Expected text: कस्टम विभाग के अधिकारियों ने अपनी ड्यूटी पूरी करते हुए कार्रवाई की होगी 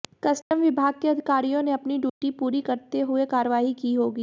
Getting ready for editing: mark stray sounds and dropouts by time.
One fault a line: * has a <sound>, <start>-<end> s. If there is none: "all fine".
* has a dropout, 0.4-0.5 s
* has a dropout, 2.1-2.2 s